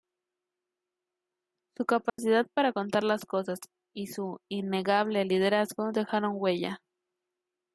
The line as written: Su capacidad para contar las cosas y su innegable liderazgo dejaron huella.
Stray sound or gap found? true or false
true